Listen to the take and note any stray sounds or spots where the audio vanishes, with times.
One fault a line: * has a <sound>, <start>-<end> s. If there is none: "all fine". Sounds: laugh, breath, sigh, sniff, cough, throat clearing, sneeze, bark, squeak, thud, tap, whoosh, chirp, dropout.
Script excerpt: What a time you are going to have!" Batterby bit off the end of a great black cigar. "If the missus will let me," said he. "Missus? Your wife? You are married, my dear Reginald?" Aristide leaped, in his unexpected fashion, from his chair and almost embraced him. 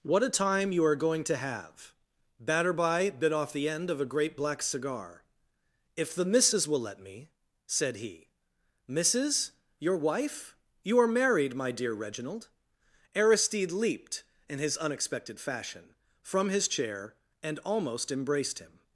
all fine